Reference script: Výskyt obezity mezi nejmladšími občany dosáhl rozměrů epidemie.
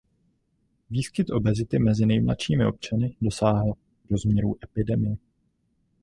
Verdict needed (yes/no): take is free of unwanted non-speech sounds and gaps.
yes